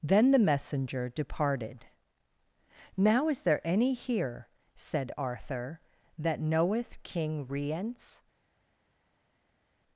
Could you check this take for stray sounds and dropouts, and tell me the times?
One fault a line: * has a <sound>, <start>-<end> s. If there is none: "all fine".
all fine